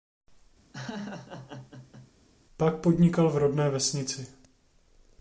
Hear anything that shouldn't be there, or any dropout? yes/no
yes